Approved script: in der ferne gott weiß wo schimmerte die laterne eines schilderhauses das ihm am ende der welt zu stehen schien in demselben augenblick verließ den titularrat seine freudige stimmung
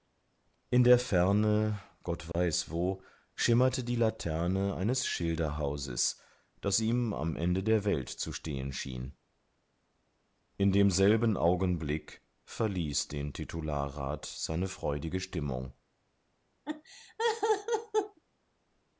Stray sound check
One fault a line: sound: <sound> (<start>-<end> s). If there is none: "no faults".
sound: dropout (2.3-2.3 s)
sound: laugh (16.7-18.2 s)